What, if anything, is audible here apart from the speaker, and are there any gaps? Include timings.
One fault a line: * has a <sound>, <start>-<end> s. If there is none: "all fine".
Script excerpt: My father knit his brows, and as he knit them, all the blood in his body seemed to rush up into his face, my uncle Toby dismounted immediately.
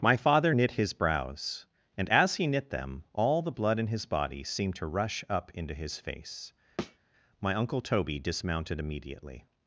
* has a thud, 6.8-7.0 s